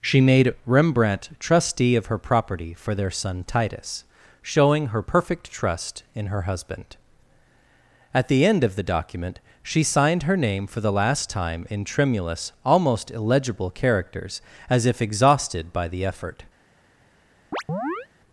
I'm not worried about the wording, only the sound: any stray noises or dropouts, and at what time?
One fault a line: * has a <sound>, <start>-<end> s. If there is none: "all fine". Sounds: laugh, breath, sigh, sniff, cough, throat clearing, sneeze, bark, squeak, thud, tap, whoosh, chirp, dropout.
* has a chirp, 17.5-18.1 s